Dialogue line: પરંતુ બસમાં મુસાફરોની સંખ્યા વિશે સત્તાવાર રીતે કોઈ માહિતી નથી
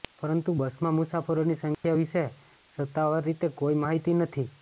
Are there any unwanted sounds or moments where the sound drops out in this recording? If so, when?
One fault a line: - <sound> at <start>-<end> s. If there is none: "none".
- dropout at 1.7-1.8 s